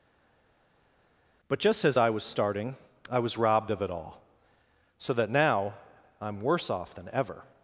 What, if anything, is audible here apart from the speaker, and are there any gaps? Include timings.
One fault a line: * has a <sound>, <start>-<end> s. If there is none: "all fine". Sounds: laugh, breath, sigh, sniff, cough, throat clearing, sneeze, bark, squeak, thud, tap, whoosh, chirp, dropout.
all fine